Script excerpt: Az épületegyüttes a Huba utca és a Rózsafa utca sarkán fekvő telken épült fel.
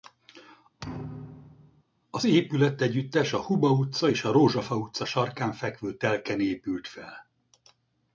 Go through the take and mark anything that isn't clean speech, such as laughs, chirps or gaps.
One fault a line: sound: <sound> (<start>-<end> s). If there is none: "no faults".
sound: thud (0.8-1.8 s)